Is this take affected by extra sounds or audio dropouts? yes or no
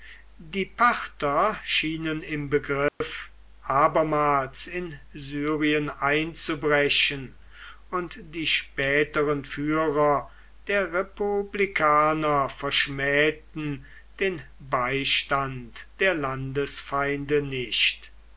yes